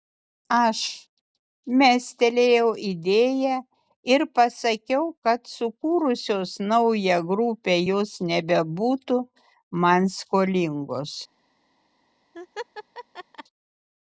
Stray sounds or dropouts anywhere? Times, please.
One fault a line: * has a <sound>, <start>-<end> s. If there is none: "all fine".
* has a laugh, 12.3-13.4 s